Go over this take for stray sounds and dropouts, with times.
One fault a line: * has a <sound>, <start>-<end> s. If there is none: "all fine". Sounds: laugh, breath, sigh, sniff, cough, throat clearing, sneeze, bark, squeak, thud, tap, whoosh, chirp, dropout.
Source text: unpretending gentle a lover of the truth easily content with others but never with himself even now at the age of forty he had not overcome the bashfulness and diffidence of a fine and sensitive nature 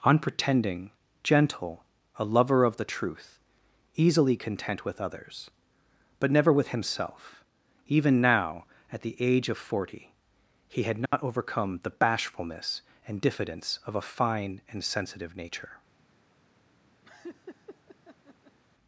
* has a dropout, 11.1-11.1 s
* has a laugh, 17.0-18.6 s